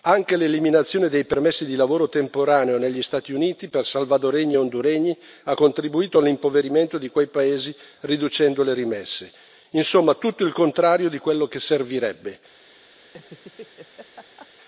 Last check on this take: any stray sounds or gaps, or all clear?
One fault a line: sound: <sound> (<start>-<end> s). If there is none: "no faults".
sound: laugh (13.0-14.5 s)